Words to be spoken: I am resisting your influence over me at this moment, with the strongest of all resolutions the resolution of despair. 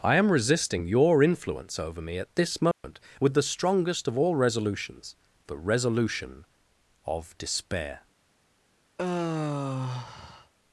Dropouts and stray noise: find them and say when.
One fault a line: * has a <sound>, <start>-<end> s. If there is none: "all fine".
* has a dropout, 2.7-2.8 s
* has a sigh, 9.0-10.5 s